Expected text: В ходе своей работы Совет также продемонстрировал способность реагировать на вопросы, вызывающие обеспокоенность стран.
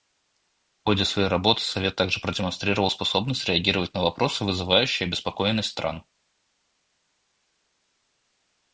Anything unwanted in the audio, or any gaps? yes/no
no